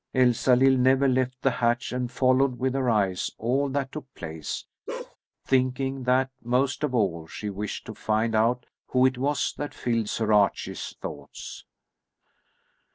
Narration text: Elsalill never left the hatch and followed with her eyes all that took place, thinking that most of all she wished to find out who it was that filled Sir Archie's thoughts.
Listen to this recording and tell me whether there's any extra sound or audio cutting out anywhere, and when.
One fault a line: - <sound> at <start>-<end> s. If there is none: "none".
- bark at 4.9-5.2 s